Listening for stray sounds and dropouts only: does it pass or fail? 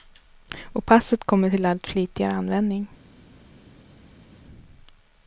pass